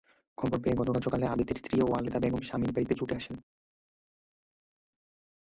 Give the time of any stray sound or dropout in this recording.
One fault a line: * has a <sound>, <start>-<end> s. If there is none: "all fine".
all fine